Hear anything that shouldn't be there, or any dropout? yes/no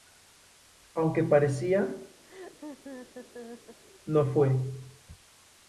yes